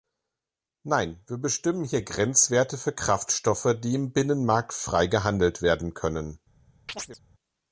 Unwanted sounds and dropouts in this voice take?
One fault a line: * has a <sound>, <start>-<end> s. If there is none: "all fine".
* has a chirp, 6.9-7.2 s